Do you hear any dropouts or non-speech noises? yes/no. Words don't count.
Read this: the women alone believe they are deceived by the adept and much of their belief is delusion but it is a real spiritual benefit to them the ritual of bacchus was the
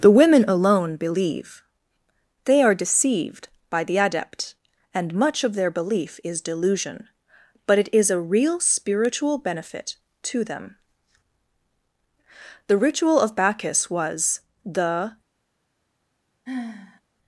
yes